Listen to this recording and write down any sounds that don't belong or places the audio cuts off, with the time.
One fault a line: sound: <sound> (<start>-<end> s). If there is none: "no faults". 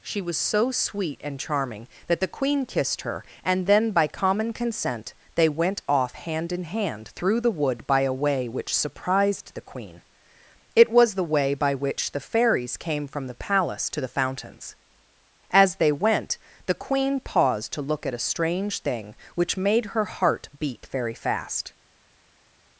no faults